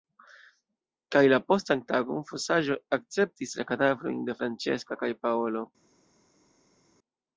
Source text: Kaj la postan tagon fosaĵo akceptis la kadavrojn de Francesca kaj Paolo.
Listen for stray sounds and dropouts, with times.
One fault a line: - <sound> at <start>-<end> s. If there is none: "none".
none